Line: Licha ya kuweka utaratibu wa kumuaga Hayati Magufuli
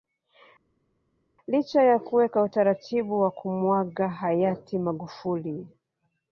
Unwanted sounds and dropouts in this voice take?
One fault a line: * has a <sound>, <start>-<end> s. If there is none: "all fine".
all fine